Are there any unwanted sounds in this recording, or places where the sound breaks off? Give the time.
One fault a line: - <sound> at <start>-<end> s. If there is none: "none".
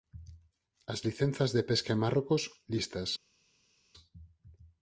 none